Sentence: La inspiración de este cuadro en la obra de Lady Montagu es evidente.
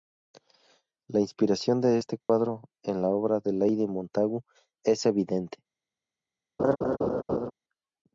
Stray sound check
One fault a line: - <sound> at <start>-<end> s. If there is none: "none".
- dropout at 2.2-2.3 s
- laugh at 6.6-7.5 s